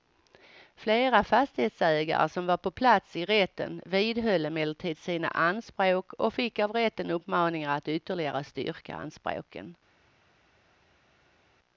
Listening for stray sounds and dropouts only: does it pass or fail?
pass